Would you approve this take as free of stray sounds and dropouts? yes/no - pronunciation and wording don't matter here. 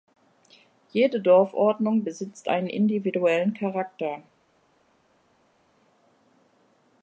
yes